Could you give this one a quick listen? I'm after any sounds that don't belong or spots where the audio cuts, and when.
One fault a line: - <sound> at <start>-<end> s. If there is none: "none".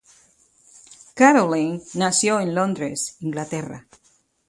none